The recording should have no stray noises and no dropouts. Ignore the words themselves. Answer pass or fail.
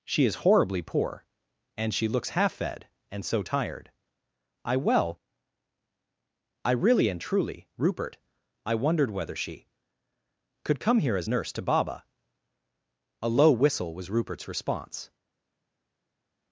pass